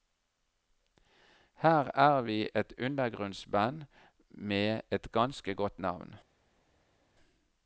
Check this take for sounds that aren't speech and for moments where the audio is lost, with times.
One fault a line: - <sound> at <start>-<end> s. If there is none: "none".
none